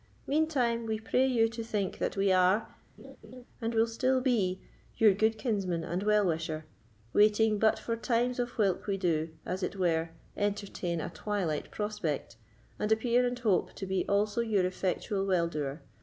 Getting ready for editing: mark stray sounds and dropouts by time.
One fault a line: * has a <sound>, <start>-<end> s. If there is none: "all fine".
* has a laugh, 3.0-3.5 s